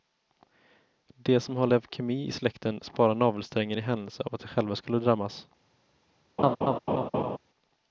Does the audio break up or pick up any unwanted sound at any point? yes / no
yes